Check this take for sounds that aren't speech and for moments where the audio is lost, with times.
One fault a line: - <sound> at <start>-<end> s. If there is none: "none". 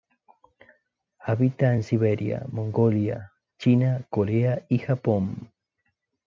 none